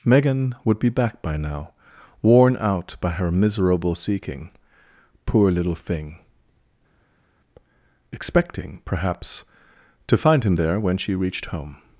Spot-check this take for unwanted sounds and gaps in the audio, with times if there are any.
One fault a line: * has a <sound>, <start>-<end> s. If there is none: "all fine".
all fine